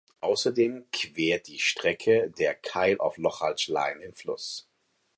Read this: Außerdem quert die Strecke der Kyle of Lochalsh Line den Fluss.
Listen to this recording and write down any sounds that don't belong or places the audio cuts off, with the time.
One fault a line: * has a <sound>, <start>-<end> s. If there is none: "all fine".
all fine